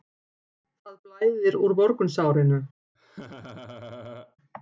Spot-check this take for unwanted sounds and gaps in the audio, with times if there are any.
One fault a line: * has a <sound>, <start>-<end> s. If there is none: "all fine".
* has a laugh, 2.9-4.4 s